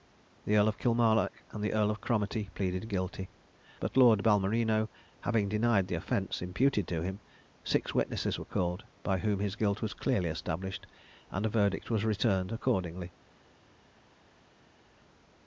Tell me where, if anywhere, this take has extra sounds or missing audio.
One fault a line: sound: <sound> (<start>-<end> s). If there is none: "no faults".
no faults